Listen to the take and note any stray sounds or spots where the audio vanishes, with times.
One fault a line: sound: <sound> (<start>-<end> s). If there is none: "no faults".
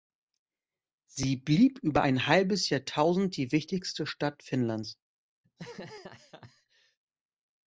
sound: laugh (5.4-7.0 s)